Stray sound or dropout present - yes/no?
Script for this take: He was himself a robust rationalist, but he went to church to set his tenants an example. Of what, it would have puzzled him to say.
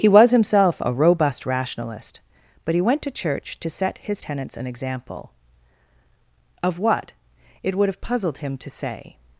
no